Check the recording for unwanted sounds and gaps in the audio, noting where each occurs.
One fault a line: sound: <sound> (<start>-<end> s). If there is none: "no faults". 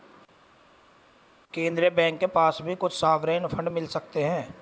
no faults